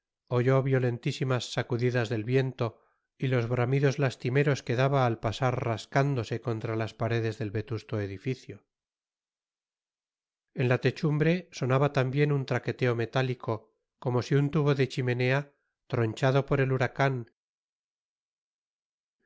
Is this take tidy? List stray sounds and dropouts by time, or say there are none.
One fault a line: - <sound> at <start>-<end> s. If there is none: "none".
none